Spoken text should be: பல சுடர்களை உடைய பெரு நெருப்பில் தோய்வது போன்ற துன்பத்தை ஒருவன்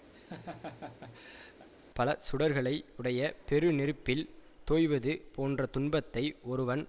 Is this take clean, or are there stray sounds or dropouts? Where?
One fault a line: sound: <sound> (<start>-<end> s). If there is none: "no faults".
sound: laugh (0.1-1.7 s)